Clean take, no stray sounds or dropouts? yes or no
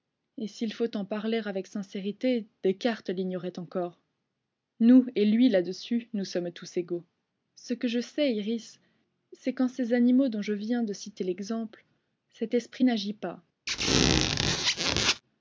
no